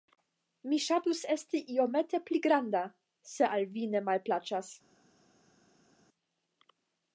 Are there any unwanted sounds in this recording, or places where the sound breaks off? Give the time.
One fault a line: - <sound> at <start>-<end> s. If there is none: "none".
none